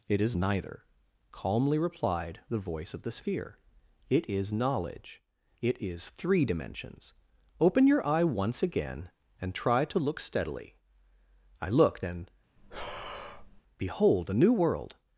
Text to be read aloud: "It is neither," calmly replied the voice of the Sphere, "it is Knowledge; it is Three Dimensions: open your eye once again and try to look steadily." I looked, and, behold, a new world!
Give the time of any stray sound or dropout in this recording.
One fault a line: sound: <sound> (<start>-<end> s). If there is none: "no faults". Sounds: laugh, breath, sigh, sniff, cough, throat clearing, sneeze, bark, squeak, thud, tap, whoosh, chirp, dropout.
sound: breath (12.6-13.6 s)